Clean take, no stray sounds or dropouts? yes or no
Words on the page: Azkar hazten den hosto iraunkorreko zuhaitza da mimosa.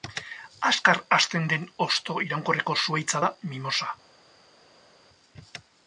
yes